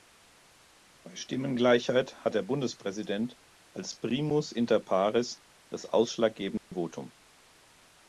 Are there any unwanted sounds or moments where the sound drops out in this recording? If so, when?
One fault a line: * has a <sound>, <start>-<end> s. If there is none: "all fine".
* has a dropout, 6.6-6.7 s